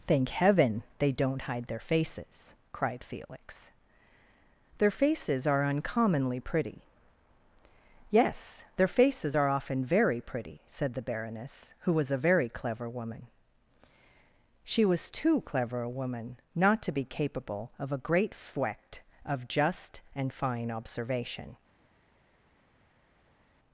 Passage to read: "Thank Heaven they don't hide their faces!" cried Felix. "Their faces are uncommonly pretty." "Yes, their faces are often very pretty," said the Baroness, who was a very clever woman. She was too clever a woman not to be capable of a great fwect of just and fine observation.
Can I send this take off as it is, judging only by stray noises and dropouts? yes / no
yes